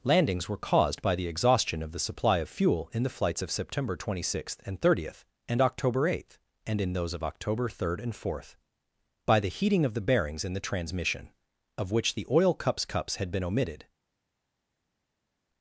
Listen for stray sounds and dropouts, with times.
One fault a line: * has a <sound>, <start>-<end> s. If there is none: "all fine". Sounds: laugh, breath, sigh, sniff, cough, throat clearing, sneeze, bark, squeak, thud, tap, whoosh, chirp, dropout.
all fine